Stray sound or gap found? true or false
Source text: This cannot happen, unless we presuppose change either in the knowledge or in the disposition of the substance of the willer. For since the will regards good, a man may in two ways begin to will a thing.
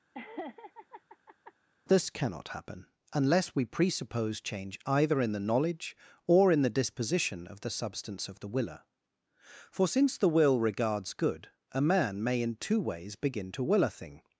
true